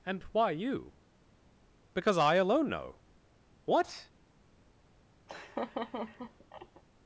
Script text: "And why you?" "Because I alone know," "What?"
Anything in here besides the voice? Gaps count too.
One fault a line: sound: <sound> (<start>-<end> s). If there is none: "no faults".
sound: laugh (5.3-6.8 s)